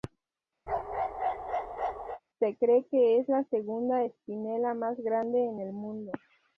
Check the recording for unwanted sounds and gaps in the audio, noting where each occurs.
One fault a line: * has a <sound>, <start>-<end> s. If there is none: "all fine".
* has a bark, 0.7-2.2 s